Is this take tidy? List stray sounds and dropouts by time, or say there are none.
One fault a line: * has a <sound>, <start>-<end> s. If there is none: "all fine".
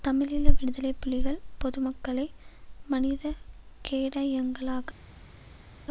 all fine